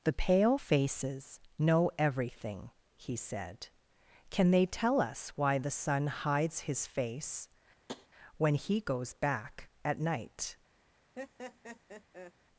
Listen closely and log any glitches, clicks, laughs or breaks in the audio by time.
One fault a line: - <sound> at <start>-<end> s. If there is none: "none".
- tap at 7.9-8.1 s
- laugh at 11.2-12.3 s